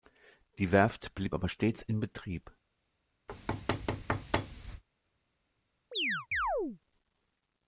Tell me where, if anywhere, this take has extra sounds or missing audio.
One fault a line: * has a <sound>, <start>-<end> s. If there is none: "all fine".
* has a thud, 3.3-4.8 s
* has a chirp, 5.9-6.8 s